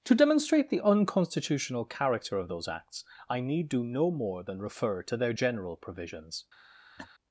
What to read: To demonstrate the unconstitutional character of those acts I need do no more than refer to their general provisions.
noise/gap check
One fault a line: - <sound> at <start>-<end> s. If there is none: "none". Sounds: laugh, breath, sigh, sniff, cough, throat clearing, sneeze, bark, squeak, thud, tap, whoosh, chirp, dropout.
- laugh at 7.0-7.1 s